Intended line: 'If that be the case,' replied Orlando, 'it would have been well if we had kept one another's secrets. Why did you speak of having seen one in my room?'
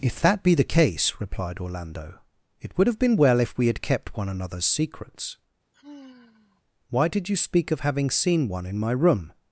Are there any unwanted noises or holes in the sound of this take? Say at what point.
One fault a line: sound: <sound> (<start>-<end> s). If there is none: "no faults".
sound: sigh (5.7-6.6 s)